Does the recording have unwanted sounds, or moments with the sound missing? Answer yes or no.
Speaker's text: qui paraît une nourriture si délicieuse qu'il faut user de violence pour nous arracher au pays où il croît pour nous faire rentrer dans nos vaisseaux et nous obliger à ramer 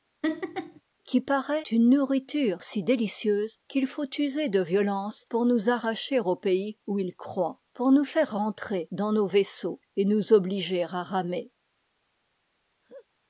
yes